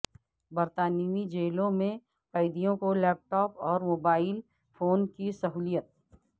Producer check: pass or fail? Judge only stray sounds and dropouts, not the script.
pass